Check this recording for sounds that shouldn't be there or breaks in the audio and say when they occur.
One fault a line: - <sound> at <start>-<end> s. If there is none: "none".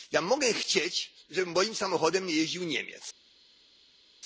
none